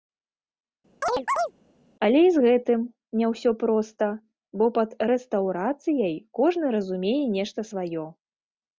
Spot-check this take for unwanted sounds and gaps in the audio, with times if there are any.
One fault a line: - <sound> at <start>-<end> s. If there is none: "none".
- chirp at 1.0-1.5 s